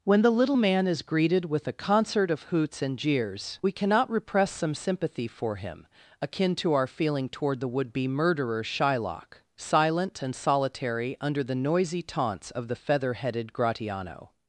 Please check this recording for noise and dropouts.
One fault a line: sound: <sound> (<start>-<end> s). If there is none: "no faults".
no faults